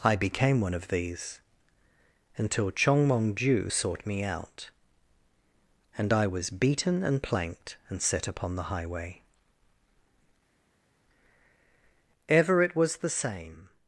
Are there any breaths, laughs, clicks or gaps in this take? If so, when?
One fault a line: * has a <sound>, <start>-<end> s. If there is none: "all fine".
all fine